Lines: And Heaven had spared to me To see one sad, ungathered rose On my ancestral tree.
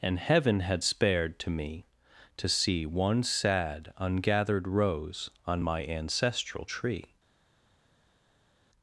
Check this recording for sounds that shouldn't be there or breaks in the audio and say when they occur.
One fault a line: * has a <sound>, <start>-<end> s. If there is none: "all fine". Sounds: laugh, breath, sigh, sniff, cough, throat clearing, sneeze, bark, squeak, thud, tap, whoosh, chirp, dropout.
all fine